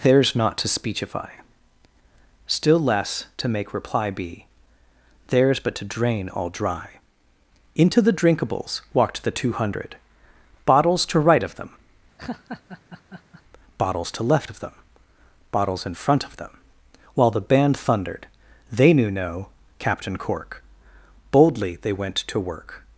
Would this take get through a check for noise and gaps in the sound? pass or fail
fail